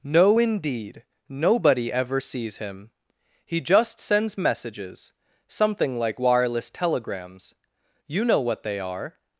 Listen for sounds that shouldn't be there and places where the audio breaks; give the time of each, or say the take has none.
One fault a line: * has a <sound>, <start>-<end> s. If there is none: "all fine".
all fine